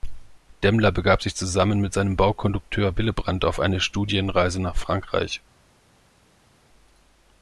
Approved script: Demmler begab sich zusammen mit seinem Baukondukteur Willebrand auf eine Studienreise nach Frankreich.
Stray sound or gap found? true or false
false